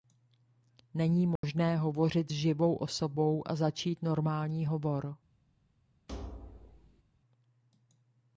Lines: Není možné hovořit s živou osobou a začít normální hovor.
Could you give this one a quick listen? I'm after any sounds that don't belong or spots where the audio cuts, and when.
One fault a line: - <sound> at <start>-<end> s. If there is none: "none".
- dropout at 1.4-1.4 s
- thud at 6.1-7.0 s